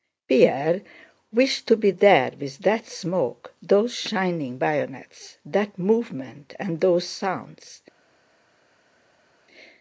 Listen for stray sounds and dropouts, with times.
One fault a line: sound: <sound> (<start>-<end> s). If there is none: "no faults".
no faults